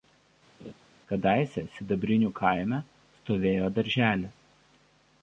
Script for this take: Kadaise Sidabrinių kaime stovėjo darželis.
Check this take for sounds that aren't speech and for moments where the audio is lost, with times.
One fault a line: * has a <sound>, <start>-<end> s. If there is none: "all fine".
* has a laugh, 0.6-0.7 s